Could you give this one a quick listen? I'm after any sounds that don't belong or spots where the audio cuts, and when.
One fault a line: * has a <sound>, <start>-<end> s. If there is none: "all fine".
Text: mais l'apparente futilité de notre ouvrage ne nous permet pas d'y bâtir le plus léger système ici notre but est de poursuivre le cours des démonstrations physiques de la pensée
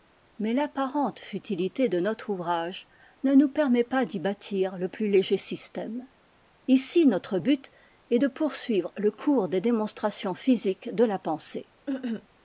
* has a cough, 11.9-12.3 s